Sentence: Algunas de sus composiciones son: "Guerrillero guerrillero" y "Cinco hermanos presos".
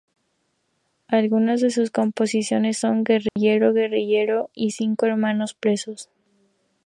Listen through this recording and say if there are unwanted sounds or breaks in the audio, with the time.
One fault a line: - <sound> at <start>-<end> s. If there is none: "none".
- dropout at 3.3-3.4 s